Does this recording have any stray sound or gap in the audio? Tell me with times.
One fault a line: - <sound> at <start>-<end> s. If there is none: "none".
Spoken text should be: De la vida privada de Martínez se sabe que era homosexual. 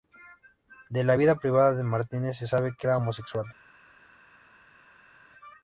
none